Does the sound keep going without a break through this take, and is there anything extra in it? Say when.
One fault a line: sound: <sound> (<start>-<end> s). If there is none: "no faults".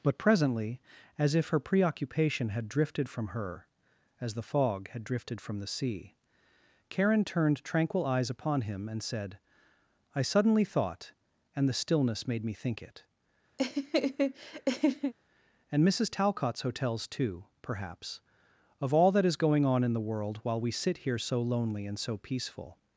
sound: laugh (13.6-15.1 s)